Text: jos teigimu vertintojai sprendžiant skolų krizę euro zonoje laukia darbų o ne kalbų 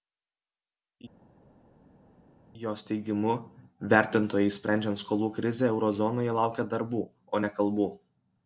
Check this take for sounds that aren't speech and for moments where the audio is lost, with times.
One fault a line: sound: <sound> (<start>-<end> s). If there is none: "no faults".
no faults